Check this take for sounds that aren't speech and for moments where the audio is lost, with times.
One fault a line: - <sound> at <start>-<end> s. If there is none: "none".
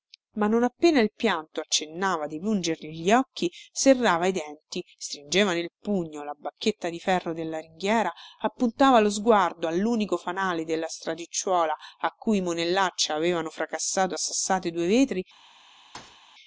- thud at 15.9-16.2 s